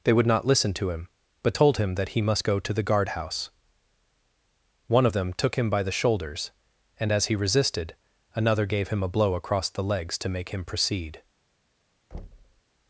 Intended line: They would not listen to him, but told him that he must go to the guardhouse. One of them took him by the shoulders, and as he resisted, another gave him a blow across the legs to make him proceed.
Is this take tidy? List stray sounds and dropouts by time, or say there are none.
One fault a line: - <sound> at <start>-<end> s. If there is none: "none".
- thud at 12.1-12.6 s